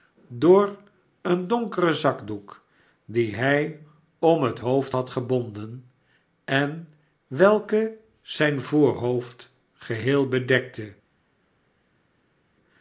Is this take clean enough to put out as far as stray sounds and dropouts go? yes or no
yes